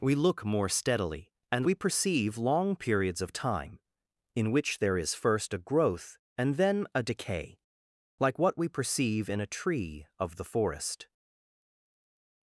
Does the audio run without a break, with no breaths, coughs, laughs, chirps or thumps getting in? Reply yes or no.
yes